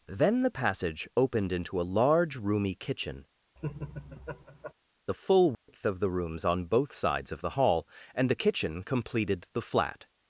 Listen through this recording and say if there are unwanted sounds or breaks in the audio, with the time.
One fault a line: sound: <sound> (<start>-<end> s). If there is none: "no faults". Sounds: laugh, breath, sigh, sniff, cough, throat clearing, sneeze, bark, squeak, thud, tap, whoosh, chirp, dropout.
sound: laugh (3.6-4.7 s)
sound: dropout (5.5-5.7 s)